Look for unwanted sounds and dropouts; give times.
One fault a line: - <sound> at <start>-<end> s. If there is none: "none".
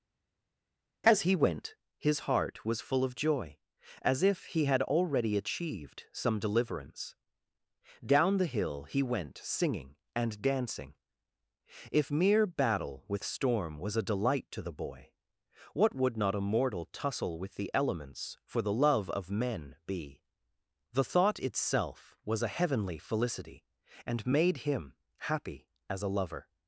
none